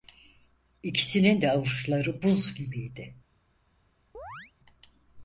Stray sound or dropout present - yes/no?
yes